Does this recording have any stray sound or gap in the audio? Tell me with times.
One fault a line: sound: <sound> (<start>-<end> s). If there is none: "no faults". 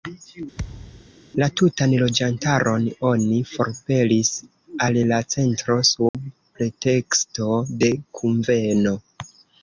sound: thud (0.6-1.1 s)
sound: dropout (6.1-6.1 s)